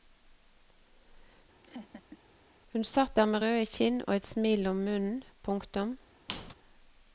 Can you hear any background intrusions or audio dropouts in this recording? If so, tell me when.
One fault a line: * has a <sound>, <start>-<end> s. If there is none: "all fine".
* has a laugh, 1.6-2.2 s
* has a squeak, 6.3-6.5 s